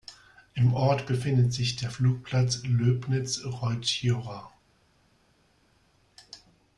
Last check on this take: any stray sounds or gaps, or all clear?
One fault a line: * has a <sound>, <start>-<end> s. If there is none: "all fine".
all fine